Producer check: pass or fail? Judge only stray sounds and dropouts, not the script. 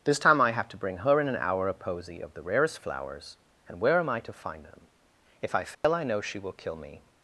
fail